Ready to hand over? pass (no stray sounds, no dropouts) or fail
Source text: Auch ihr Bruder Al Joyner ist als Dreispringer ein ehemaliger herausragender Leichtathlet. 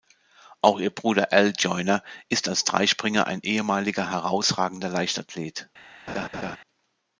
fail